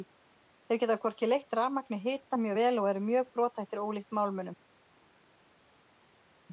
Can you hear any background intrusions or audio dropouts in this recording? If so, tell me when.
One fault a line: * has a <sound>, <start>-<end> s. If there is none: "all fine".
all fine